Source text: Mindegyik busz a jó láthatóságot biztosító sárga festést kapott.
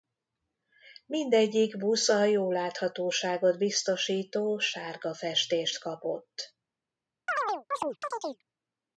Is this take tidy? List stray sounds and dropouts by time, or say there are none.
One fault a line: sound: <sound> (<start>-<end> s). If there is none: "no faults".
sound: chirp (7.3-8.4 s)